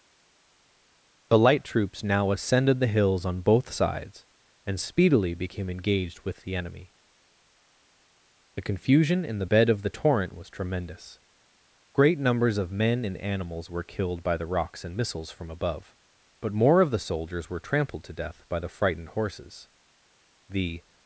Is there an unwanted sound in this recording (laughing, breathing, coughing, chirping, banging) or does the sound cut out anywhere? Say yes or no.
no